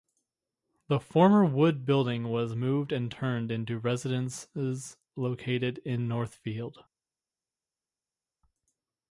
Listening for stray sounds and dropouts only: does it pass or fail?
pass